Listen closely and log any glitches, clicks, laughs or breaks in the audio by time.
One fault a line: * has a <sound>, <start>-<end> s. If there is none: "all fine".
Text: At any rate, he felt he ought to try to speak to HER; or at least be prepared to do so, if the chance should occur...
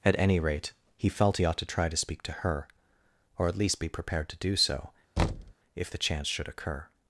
* has a thud, 5.2-5.5 s